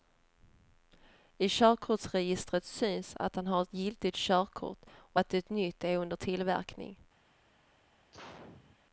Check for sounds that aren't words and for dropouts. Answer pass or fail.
fail